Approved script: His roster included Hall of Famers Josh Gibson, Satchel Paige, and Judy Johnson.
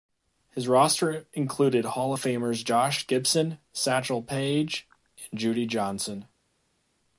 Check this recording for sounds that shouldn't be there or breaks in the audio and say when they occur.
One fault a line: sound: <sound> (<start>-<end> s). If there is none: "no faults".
no faults